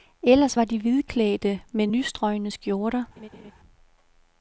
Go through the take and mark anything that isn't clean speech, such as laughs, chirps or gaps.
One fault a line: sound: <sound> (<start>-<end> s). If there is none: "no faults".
sound: laugh (3.2-3.5 s)